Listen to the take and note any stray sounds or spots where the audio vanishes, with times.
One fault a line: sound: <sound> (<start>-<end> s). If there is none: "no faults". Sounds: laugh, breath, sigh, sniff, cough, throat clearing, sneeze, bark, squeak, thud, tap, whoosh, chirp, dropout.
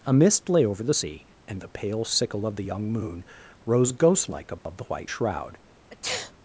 sound: dropout (4.6-4.7 s)
sound: sneeze (5.9-6.3 s)